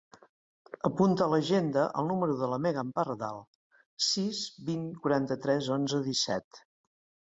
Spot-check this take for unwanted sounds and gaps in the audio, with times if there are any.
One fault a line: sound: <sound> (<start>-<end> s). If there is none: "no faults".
no faults